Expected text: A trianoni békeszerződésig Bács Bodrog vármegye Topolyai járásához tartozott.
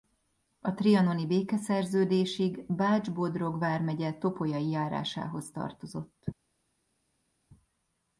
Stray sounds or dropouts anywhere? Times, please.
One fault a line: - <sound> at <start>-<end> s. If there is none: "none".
none